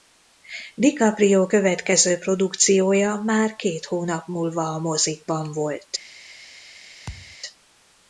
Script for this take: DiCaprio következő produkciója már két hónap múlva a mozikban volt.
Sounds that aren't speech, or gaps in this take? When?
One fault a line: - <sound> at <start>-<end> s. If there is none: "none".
- thud at 7.1-7.4 s